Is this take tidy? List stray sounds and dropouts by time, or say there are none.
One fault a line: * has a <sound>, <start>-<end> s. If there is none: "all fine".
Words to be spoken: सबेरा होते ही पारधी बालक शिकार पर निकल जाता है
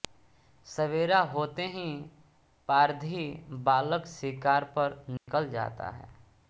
* has a dropout, 5.2-5.3 s